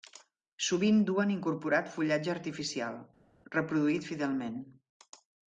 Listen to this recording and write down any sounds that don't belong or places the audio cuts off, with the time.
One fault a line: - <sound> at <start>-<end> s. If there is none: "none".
none